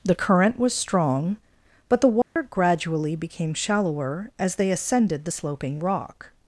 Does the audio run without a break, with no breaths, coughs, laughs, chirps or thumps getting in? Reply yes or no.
no